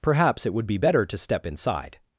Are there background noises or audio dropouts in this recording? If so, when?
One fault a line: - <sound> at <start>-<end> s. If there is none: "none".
none